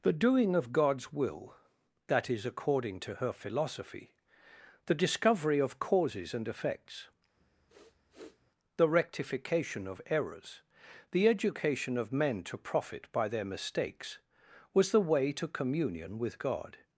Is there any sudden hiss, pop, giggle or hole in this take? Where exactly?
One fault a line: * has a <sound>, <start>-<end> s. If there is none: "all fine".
* has a sniff, 7.4-8.5 s